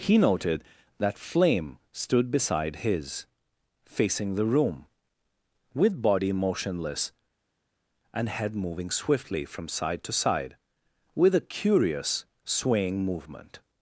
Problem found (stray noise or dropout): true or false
false